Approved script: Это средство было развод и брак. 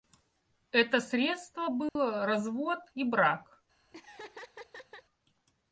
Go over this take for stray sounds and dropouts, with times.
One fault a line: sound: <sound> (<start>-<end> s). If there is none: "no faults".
sound: dropout (1.9-2.0 s)
sound: laugh (3.9-5.0 s)